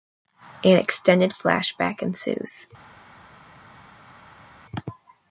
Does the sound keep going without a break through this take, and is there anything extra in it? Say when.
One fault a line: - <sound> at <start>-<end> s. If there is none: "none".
none